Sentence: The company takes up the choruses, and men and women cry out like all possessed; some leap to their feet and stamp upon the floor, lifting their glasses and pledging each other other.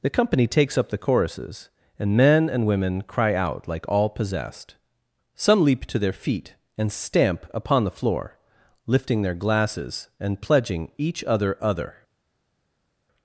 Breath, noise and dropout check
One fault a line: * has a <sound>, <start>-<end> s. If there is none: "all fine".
all fine